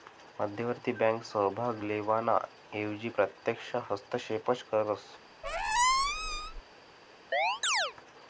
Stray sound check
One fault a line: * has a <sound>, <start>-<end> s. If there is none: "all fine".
* has a squeak, 5.4-6.6 s
* has a chirp, 7.3-7.9 s